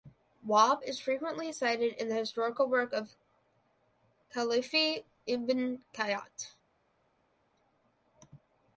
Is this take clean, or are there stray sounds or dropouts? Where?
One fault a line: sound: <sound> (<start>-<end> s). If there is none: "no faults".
no faults